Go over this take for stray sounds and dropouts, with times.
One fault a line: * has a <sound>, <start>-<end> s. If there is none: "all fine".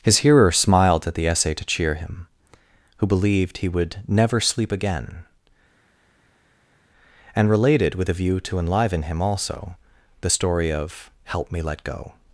all fine